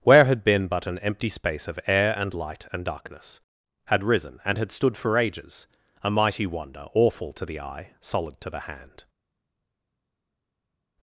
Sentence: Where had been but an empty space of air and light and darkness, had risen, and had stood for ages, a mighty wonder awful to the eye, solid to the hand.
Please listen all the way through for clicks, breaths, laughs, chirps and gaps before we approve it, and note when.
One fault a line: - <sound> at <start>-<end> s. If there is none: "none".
none